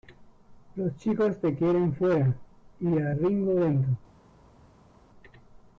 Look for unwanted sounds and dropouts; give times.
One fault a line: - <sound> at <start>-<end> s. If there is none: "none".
none